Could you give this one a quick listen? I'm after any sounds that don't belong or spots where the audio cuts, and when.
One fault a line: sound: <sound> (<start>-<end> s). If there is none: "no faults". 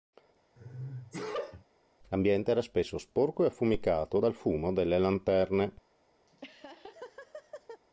sound: sneeze (0.6-1.6 s)
sound: laugh (6.3-7.8 s)